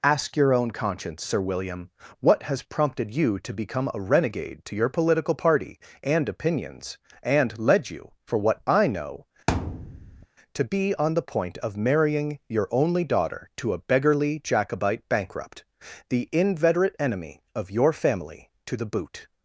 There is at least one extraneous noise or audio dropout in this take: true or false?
true